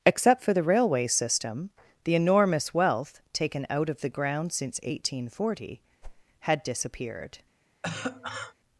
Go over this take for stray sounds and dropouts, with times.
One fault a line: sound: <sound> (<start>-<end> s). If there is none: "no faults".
sound: whoosh (6.0-6.2 s)
sound: cough (7.8-8.5 s)